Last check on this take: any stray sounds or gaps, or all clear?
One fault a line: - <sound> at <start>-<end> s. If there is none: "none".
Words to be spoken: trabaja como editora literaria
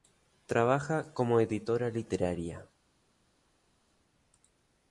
none